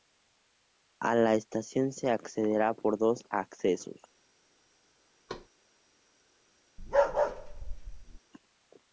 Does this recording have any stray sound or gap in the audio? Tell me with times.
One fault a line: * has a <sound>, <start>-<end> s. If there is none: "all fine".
* has a thud, 5.3-5.5 s
* has a bark, 6.8-8.2 s